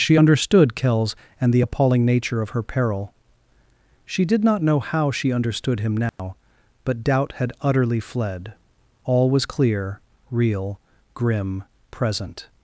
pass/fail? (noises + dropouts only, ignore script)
fail